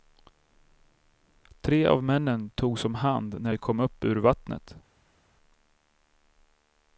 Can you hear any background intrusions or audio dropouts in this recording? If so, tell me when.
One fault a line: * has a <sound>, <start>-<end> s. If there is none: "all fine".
all fine